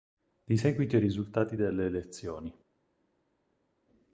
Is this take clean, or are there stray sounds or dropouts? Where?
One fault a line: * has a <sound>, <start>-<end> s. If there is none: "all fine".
all fine